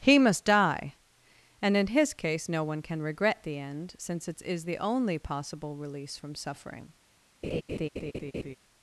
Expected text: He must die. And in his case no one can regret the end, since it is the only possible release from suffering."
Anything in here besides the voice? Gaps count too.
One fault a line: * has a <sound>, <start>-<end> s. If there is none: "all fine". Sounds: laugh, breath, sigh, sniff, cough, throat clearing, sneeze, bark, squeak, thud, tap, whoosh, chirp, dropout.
* has a laugh, 7.4-8.6 s